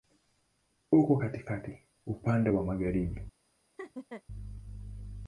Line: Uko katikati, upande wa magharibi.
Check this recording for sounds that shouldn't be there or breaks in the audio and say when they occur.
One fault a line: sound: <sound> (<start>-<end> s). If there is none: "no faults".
sound: laugh (3.8-4.2 s)